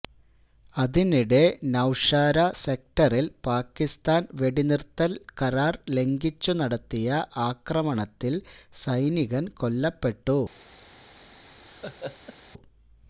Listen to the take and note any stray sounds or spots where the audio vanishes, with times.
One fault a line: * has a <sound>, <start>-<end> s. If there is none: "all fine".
* has a laugh, 11.7-12.4 s